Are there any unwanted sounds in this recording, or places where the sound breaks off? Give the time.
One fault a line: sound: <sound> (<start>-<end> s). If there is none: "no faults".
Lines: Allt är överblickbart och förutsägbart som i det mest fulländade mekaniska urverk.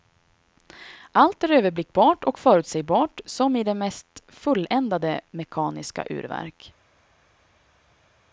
no faults